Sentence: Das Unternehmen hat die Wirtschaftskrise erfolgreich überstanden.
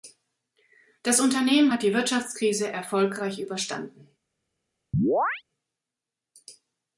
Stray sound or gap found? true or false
true